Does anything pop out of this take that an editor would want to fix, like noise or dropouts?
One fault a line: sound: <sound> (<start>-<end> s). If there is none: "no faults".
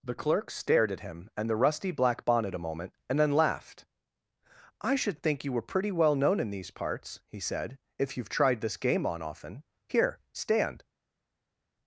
no faults